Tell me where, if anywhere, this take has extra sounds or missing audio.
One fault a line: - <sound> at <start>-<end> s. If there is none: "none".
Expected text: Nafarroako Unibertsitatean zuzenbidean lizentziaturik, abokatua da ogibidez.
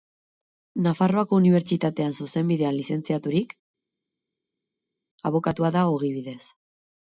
none